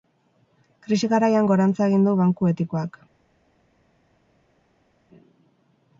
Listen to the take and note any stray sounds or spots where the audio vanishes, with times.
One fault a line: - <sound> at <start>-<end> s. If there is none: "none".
none